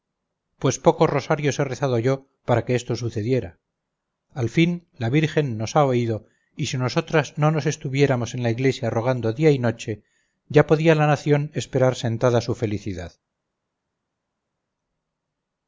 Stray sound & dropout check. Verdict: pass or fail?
pass